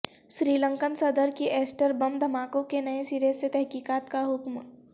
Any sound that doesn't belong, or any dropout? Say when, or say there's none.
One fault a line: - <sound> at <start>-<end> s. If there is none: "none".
none